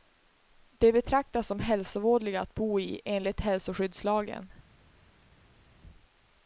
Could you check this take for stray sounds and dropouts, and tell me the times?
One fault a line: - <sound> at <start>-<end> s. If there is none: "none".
none